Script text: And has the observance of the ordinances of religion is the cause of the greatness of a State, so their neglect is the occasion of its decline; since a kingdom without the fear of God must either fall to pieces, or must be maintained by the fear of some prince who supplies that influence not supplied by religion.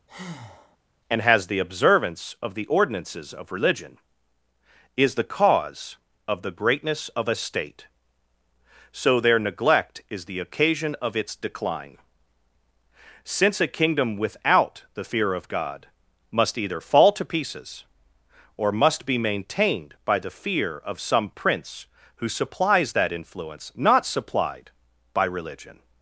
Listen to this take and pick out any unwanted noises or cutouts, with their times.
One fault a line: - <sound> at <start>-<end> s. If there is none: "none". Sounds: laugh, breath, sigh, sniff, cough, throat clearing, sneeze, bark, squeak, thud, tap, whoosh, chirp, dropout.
- breath at 0.1-0.8 s